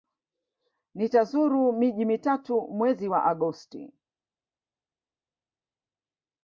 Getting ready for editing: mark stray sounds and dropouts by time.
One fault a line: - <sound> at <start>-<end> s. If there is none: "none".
none